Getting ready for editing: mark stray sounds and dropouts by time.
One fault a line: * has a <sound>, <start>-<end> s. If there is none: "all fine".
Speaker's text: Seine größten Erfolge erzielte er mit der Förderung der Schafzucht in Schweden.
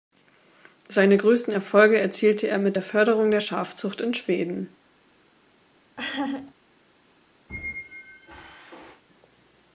* has a laugh, 6.0-6.5 s
* has a squeak, 7.5-9.0 s